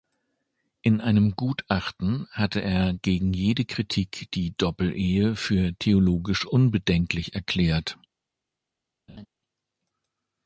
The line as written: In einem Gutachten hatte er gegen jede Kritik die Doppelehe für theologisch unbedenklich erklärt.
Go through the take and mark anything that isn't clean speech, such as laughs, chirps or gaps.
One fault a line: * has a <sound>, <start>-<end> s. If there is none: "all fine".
* has a laugh, 9.1-9.3 s